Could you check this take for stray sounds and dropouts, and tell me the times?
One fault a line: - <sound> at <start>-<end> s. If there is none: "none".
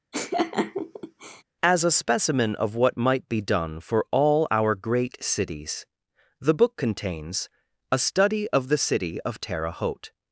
- laugh at 0.1-1.4 s